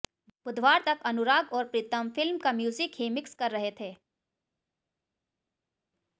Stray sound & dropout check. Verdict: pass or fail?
pass